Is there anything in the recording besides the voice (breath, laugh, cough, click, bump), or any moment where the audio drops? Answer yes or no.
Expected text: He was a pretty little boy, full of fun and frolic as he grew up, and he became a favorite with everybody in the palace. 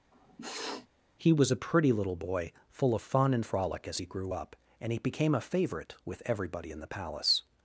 yes